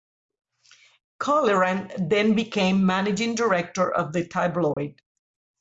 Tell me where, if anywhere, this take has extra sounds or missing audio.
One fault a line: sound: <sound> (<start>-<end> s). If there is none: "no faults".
sound: dropout (4.7-4.8 s)